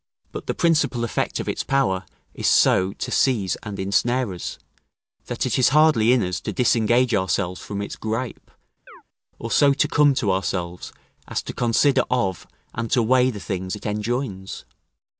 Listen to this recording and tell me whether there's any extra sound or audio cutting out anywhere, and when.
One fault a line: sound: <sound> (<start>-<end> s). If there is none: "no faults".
sound: chirp (8.9-9.0 s)